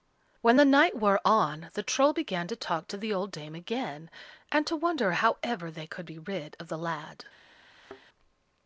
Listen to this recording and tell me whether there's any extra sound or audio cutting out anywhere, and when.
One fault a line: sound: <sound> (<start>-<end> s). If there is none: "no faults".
sound: thud (7.7-8.0 s)